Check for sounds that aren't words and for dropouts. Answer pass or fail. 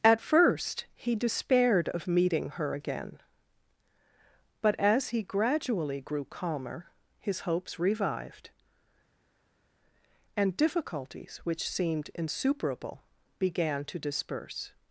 pass